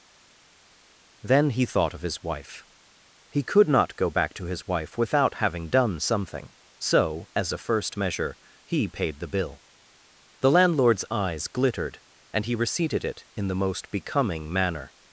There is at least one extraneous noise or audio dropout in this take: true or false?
false